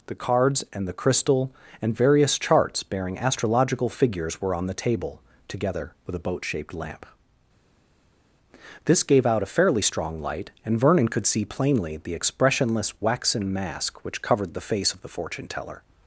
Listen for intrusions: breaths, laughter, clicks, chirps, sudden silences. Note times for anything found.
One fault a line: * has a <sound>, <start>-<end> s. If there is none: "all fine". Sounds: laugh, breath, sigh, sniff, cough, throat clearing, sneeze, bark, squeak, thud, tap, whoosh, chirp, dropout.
all fine